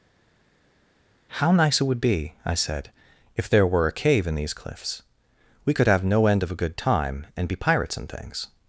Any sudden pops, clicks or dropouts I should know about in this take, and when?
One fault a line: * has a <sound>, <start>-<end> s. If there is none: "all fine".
all fine